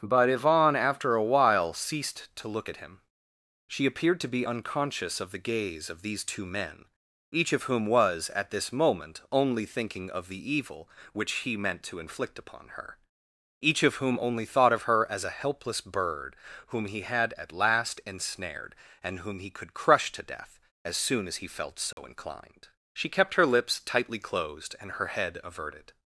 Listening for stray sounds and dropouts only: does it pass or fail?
fail